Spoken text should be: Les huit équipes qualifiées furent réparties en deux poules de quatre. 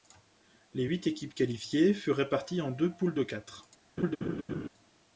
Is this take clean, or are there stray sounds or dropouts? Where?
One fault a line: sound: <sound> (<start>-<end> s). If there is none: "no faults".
sound: laugh (4.0-4.7 s)